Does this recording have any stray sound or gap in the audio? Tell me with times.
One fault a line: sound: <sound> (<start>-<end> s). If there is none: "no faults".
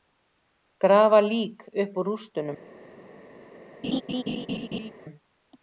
sound: laugh (3.8-4.9 s)